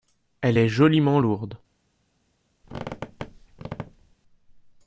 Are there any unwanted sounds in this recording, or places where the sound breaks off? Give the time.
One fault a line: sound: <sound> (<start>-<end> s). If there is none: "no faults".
sound: squeak (2.6-4.2 s)